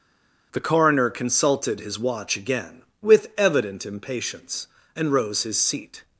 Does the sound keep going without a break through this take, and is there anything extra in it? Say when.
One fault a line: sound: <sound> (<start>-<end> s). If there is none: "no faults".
no faults